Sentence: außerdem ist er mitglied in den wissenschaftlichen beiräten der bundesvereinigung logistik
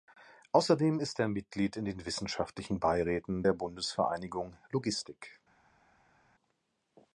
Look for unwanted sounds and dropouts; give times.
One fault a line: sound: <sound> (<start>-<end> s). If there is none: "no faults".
no faults